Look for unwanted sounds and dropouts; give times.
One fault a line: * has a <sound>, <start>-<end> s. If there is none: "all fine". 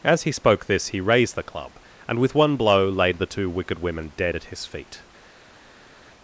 all fine